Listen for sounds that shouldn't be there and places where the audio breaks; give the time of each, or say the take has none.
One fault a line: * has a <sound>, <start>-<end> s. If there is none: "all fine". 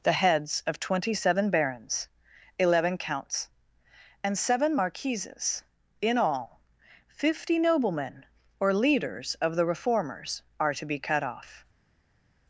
all fine